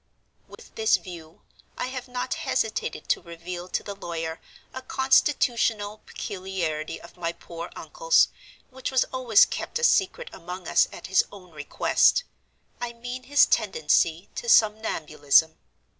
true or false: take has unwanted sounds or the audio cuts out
true